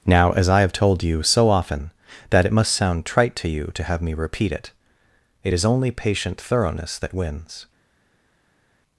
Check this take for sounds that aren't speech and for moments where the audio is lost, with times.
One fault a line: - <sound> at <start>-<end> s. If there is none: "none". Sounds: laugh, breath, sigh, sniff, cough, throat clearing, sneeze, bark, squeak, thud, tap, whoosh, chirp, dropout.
none